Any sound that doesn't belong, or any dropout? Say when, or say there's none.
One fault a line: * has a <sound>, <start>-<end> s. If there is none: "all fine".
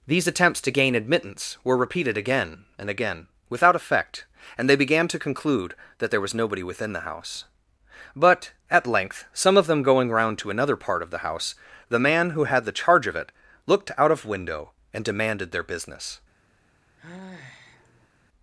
* has a sigh, 17.0-18.1 s